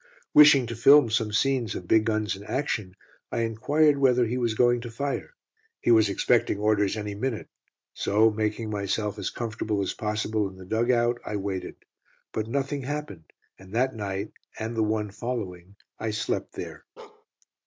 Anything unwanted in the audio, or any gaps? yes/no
yes